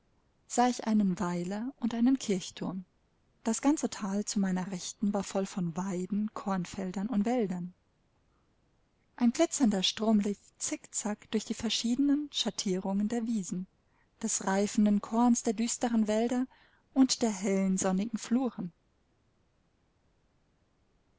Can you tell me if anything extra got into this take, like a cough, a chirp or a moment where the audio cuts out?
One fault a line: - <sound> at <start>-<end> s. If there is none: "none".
none